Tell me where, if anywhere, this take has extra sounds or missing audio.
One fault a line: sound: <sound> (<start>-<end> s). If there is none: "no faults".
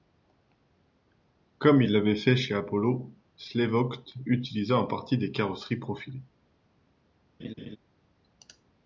sound: laugh (7.4-7.8 s)